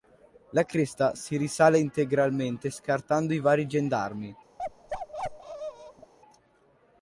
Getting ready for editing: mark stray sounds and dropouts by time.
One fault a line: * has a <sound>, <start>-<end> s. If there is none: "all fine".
* has a bark, 4.6-6.1 s